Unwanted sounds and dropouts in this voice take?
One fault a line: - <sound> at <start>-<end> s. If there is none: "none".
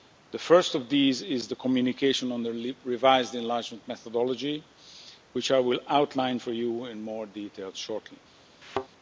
- thud at 8.6-8.9 s